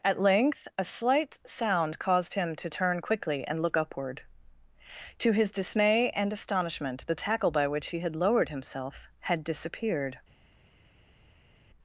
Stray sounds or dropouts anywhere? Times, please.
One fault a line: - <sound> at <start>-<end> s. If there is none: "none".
none